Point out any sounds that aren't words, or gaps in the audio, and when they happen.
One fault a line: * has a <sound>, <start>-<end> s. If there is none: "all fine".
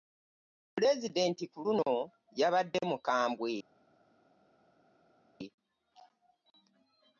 all fine